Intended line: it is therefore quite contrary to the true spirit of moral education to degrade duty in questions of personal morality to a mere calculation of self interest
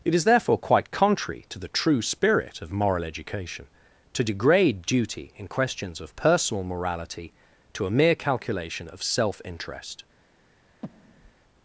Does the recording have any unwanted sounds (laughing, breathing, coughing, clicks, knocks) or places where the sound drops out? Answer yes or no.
yes